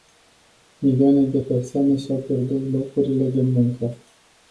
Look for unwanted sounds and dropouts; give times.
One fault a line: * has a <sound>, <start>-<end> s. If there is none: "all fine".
all fine